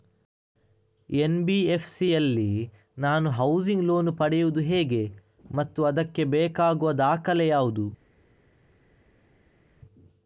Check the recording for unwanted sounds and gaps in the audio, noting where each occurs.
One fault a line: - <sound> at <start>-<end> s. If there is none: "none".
none